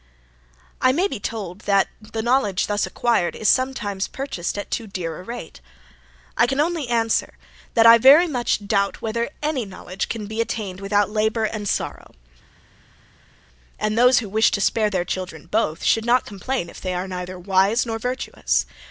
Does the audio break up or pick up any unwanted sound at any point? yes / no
no